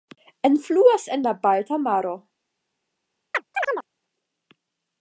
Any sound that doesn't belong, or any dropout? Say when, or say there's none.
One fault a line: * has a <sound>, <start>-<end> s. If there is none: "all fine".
* has a chirp, 3.3-3.9 s